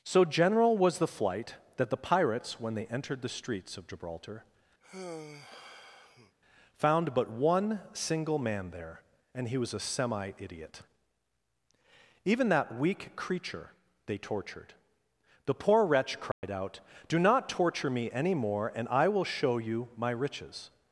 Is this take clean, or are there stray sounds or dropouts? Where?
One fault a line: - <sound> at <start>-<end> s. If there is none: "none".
- sigh at 4.8-6.4 s
- dropout at 16.3-16.4 s